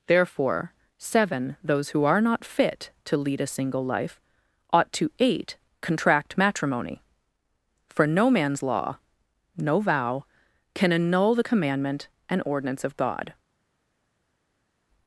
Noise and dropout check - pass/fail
pass